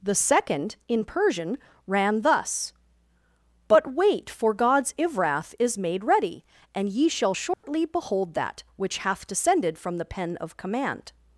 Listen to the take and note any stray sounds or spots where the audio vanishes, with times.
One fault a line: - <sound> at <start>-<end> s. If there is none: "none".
- dropout at 7.5-7.6 s